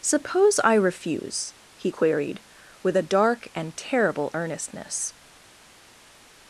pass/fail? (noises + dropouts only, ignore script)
pass